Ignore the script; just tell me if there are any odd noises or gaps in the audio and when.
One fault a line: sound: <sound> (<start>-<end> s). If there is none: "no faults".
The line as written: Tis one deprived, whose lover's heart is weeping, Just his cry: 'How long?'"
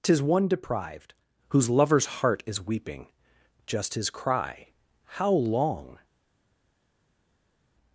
no faults